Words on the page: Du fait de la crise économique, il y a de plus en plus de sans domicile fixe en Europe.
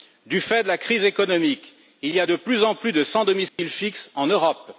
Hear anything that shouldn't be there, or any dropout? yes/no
yes